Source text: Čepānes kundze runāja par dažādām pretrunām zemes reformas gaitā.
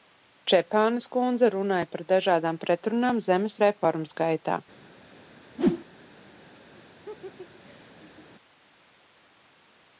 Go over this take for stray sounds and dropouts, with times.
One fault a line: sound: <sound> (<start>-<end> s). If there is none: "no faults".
sound: whoosh (5.6-5.8 s)
sound: laugh (7.0-8.3 s)